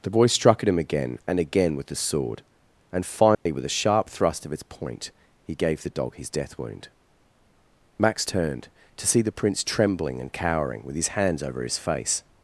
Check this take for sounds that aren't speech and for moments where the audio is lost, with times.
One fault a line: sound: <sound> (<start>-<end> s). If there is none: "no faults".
sound: dropout (3.3-3.5 s)